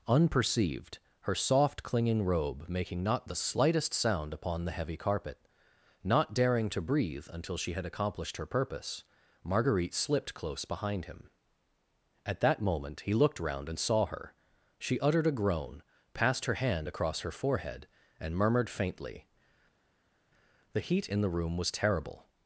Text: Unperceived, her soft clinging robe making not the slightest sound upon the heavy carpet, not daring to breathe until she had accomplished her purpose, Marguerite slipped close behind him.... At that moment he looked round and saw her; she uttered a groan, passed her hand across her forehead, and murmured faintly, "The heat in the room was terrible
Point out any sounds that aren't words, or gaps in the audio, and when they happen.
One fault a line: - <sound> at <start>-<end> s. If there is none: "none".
none